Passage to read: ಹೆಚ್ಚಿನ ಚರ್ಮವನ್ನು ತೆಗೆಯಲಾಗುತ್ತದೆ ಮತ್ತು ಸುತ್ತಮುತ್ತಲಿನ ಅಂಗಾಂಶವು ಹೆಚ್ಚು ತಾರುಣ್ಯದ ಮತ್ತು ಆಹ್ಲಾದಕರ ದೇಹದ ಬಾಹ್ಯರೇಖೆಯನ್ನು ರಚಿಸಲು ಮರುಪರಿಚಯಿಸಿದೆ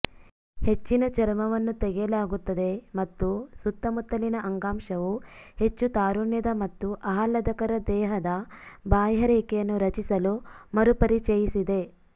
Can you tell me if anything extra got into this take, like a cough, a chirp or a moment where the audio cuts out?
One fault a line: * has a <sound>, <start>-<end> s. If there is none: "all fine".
all fine